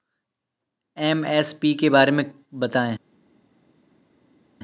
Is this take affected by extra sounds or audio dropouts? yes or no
no